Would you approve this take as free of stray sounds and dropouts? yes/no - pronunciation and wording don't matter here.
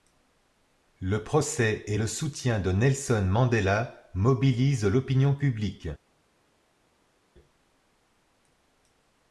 yes